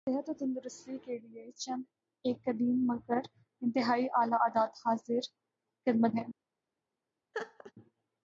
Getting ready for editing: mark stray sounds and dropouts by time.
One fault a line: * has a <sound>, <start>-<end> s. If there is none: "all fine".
* has a laugh, 7.3-7.7 s